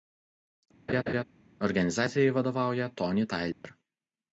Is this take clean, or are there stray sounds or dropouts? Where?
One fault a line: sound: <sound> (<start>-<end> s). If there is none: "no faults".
sound: laugh (0.9-1.2 s)
sound: dropout (3.5-3.6 s)